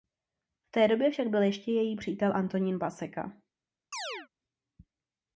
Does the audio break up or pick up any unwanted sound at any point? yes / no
yes